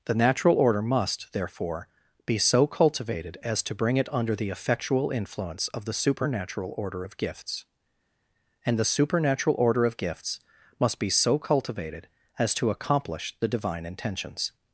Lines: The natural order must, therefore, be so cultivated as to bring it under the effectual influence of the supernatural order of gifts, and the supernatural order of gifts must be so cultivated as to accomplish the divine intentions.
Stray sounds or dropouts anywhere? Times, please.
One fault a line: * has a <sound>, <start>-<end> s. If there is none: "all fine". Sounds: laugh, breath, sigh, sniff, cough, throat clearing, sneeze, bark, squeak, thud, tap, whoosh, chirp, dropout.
all fine